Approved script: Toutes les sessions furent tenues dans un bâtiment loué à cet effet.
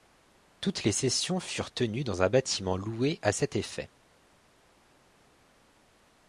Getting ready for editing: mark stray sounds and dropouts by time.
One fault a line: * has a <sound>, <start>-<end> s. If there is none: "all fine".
all fine